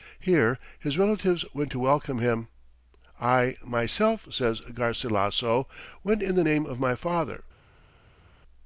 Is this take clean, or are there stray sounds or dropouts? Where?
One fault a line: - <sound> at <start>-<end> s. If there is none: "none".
none